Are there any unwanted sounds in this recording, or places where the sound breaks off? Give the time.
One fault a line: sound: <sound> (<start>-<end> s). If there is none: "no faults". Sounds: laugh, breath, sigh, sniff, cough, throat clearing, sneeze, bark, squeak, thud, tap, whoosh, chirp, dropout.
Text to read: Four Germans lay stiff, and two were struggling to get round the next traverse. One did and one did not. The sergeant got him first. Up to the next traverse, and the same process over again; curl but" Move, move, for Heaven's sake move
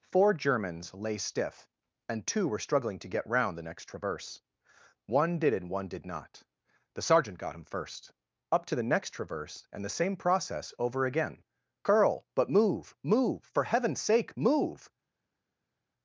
no faults